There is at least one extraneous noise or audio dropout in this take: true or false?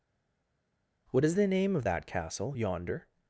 false